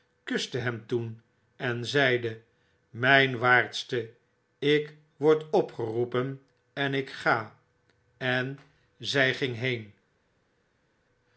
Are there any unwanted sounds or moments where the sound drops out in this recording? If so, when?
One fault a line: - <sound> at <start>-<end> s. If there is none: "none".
none